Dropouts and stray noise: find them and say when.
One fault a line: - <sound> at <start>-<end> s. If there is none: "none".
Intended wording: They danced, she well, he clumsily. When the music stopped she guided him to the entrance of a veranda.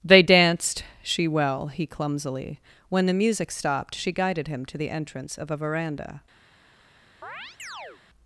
- chirp at 7.2-8.0 s